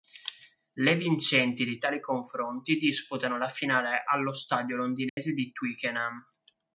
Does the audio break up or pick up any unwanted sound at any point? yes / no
yes